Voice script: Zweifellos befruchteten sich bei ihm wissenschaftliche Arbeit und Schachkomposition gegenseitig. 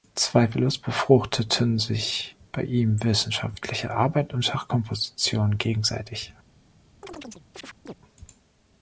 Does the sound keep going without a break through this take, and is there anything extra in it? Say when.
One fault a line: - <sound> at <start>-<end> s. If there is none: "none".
- chirp at 7.0-7.9 s